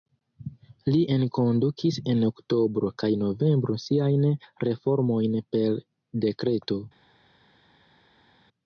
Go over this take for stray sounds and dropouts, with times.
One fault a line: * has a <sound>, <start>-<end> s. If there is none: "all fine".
all fine